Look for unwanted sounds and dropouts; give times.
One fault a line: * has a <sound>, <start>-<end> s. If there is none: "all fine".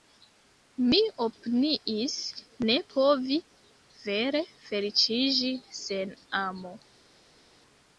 all fine